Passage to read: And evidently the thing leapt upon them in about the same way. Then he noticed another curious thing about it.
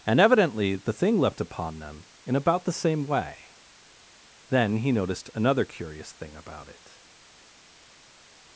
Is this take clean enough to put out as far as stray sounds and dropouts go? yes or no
yes